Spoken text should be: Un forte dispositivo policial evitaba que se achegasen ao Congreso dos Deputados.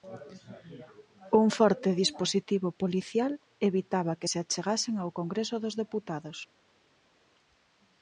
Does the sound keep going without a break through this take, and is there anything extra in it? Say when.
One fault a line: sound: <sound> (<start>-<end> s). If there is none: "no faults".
no faults